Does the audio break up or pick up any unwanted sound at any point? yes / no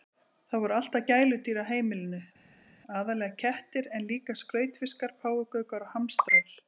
no